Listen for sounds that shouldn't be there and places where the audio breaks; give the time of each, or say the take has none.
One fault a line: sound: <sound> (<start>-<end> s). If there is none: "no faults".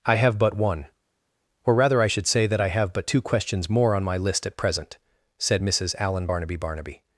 no faults